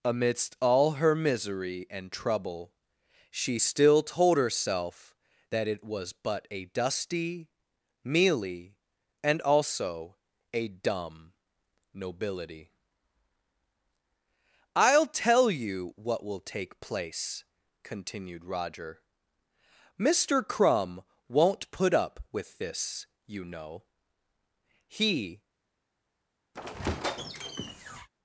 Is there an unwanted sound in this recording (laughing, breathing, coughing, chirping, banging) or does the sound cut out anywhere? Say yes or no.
yes